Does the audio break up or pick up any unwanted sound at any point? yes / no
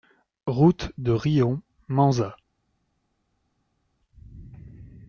no